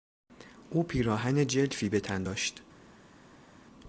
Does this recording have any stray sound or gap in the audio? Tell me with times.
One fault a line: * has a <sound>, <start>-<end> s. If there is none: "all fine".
all fine